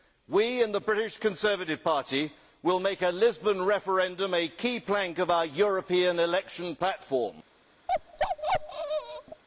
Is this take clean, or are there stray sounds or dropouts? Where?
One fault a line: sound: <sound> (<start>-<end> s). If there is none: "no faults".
sound: bark (7.9-9.4 s)